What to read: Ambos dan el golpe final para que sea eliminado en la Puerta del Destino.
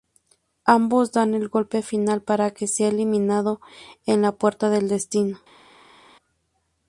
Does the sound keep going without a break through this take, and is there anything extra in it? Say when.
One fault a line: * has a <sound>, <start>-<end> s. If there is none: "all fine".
all fine